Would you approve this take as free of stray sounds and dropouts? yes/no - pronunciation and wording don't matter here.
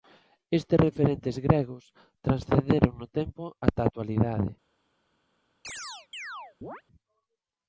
no